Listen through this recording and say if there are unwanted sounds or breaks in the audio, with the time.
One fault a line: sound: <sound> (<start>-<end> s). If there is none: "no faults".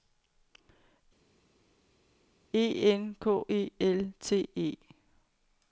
no faults